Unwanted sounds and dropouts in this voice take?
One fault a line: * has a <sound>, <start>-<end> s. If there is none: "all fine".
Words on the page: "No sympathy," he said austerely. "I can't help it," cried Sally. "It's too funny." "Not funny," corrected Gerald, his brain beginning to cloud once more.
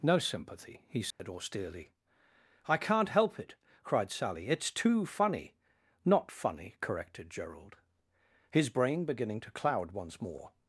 * has a dropout, 1.1-1.2 s